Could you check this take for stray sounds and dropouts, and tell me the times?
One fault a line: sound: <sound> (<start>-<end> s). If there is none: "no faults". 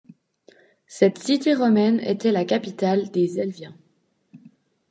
no faults